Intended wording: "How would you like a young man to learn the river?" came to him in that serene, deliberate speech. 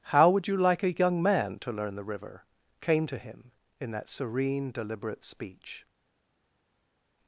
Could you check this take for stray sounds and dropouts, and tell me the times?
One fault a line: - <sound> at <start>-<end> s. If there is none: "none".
none